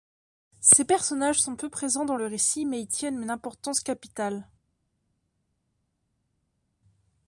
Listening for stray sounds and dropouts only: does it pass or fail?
pass